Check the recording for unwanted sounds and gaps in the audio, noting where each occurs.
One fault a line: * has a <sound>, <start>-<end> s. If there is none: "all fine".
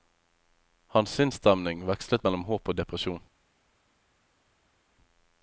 all fine